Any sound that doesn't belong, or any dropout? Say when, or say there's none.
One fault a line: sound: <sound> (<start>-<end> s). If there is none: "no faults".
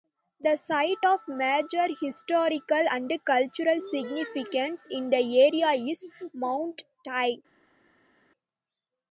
no faults